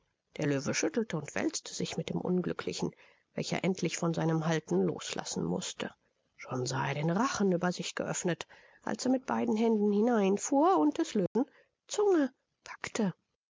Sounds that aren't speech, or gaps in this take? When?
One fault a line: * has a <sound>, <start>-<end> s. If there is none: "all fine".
* has a dropout, 11.3-11.4 s